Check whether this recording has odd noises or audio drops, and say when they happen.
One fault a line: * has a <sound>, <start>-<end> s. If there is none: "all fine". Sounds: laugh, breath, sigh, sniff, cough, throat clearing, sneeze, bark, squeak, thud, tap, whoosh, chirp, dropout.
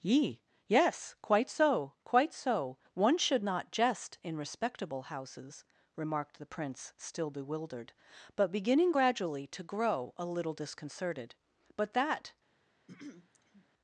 * has a throat clearing, 12.9-13.7 s